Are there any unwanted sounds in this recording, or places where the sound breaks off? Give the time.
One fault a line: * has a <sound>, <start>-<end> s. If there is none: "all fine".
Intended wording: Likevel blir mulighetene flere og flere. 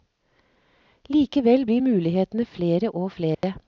* has a dropout, 3.3-3.4 s